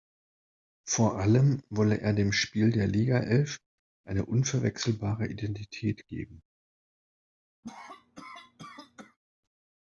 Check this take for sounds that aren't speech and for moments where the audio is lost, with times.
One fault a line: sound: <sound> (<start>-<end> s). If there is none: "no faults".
sound: cough (7.6-9.2 s)